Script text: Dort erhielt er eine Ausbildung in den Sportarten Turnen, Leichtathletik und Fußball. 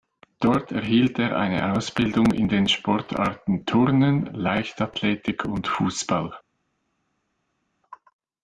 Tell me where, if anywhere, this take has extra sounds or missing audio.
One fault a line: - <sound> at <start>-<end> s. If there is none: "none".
none